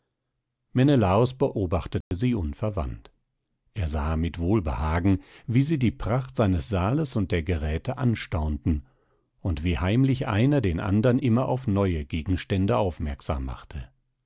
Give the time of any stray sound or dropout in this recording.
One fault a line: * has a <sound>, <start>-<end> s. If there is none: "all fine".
* has a dropout, 2.0-2.1 s